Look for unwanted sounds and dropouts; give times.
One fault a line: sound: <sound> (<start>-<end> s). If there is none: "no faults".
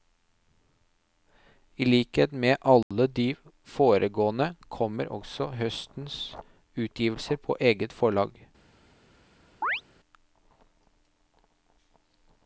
sound: dropout (2.8-2.9 s)
sound: chirp (9.6-9.8 s)